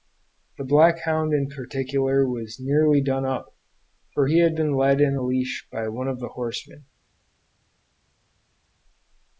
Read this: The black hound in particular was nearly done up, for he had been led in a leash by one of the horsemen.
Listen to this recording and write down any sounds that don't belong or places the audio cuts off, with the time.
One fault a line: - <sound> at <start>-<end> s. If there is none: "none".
none